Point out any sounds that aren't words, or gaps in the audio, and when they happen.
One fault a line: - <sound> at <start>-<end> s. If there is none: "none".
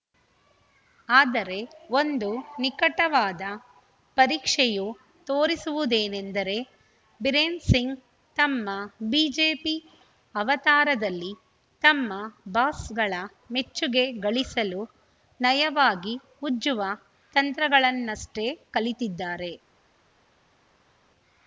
none